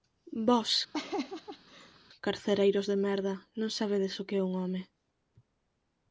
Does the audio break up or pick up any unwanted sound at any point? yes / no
yes